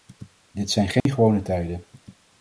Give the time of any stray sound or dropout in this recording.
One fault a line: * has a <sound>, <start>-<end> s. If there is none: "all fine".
* has a dropout, 1.0-1.1 s